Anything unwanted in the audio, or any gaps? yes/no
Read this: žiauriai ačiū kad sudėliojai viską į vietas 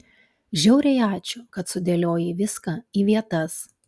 no